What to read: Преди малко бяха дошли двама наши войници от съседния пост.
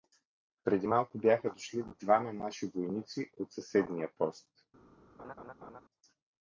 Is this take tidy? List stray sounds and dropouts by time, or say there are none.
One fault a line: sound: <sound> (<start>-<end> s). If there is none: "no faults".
sound: laugh (5.2-5.8 s)